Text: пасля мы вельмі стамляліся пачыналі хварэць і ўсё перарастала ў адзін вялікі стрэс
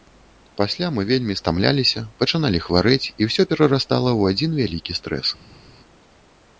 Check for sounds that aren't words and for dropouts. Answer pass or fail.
pass